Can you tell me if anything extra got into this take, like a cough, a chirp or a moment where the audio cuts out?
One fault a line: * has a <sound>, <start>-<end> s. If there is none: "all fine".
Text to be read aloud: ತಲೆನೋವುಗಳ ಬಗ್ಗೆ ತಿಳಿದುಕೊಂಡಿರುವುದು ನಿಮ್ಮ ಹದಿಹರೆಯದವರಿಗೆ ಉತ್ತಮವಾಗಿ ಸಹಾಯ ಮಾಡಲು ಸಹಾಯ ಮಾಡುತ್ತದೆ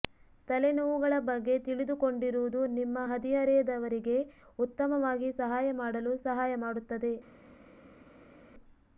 all fine